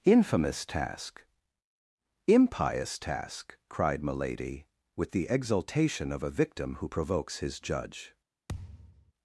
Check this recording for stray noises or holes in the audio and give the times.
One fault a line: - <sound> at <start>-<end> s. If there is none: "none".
- thud at 8.5-9.1 s